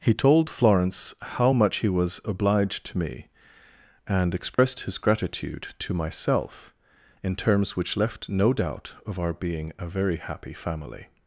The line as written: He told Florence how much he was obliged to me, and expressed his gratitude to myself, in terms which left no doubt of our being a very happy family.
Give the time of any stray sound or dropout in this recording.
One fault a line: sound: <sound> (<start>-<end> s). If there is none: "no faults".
sound: dropout (4.5-4.6 s)